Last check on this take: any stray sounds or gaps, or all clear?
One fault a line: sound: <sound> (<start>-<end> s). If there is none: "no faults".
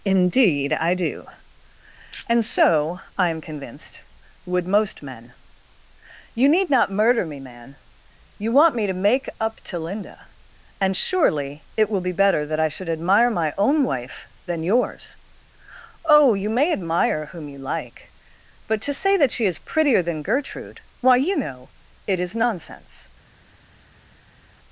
no faults